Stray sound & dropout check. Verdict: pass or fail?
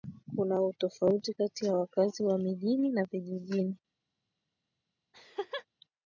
fail